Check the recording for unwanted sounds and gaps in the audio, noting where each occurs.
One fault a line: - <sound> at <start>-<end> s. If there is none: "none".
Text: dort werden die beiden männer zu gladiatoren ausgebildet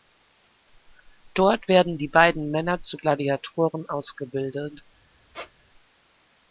- squeak at 5.3-5.5 s